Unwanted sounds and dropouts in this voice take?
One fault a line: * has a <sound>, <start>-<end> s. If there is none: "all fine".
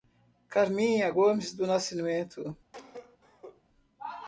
* has a cough, 2.7-3.6 s